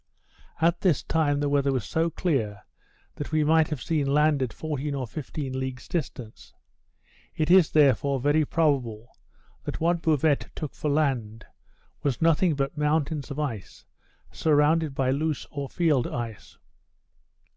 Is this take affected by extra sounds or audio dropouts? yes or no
no